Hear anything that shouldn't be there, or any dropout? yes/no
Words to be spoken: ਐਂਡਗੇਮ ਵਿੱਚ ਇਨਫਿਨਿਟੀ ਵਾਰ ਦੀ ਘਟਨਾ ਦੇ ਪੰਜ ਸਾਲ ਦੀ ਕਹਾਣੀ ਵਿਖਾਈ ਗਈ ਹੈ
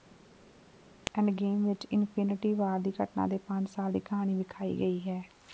no